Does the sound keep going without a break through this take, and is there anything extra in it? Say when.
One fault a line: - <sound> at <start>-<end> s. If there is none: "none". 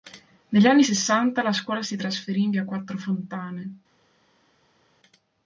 none